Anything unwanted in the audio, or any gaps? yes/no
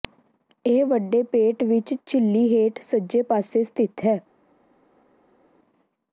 no